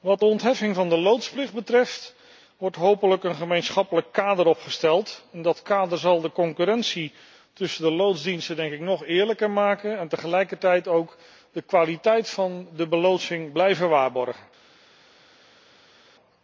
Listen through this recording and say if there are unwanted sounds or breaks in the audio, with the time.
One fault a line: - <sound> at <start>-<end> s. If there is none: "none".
none